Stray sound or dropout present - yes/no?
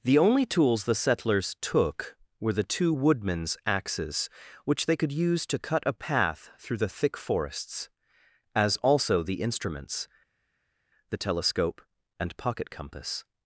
no